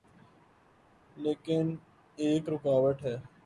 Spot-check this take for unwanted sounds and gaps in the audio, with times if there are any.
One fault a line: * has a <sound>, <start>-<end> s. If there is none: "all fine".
all fine